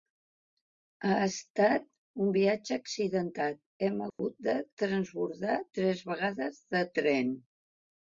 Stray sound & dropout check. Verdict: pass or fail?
fail